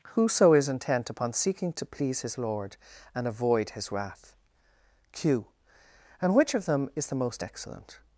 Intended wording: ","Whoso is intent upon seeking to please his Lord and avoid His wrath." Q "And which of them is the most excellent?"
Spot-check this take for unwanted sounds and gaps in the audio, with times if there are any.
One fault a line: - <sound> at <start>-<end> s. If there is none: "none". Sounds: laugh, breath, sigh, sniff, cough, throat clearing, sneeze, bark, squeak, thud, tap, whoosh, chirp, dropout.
none